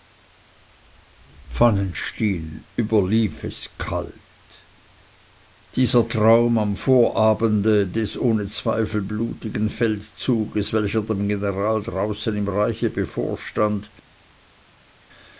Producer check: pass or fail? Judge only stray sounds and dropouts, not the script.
pass